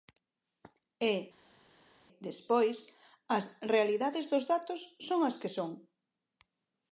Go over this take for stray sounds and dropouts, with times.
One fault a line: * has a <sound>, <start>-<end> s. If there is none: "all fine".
all fine